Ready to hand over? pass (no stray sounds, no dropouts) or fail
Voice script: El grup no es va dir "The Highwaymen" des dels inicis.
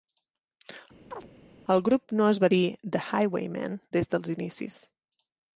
fail